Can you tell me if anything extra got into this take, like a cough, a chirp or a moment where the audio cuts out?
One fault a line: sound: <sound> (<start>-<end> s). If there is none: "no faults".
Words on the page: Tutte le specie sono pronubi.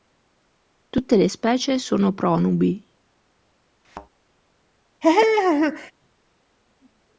sound: thud (3.8-4.1 s)
sound: laugh (5.0-5.9 s)